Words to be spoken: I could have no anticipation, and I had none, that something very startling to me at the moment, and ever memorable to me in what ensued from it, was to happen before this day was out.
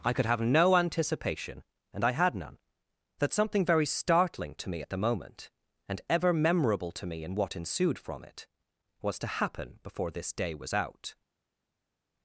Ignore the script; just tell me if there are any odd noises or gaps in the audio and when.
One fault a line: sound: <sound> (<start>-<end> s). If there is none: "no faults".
no faults